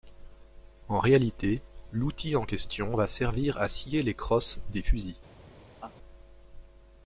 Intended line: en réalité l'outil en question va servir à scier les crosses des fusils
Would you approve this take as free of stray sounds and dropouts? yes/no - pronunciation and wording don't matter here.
no